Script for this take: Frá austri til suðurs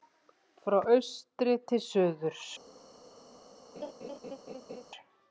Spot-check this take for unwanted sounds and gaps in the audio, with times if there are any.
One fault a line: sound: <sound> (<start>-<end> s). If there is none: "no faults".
sound: laugh (3.8-4.9 s)